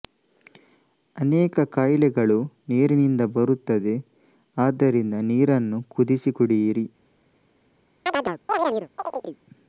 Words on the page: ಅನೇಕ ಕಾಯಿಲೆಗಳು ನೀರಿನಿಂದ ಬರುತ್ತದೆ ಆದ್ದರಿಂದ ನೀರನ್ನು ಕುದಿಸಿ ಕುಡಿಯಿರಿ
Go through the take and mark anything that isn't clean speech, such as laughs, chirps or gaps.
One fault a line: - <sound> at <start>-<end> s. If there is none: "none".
- chirp at 8.1-9.4 s